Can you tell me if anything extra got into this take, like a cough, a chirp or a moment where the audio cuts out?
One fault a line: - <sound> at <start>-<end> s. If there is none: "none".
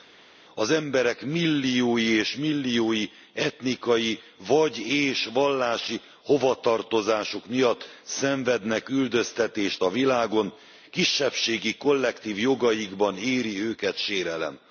none